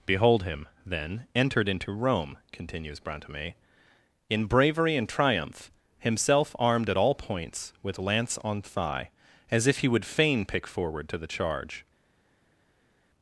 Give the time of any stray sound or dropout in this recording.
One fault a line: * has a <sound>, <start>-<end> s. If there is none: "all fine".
all fine